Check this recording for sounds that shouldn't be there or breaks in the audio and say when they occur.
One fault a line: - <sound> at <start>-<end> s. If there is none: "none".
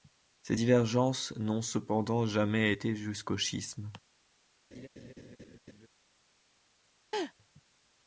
- laugh at 4.7-5.9 s
- laugh at 7.1-7.3 s